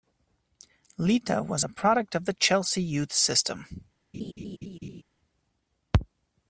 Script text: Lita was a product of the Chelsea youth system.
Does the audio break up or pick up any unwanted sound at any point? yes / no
yes